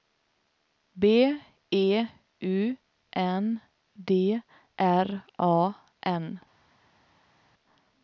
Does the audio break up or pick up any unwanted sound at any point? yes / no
no